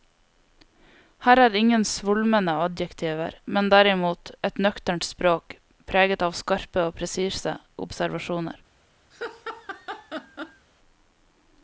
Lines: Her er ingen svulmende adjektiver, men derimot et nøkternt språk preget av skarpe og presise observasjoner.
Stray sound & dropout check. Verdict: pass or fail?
fail